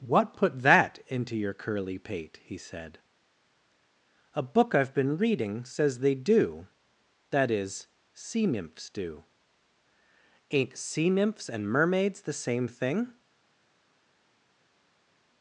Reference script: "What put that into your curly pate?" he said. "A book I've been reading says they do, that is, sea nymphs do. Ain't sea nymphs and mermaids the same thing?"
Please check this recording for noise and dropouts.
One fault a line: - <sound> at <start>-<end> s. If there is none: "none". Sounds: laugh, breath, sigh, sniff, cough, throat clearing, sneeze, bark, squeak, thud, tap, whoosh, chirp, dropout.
none